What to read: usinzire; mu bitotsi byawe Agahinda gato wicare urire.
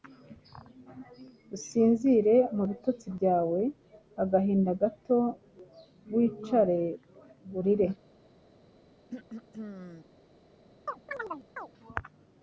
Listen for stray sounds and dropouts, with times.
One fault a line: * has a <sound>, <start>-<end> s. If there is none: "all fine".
* has a throat clearing, 9.1-10.1 s
* has a chirp, 10.9-11.7 s